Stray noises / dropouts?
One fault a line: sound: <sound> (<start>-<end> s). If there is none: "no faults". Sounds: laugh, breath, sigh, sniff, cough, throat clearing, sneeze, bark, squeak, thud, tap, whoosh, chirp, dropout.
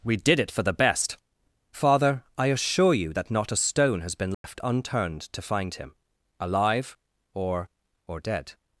sound: dropout (4.3-4.4 s)